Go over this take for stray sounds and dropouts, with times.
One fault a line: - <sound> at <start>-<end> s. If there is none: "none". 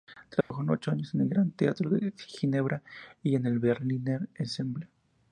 - dropout at 0.4-0.5 s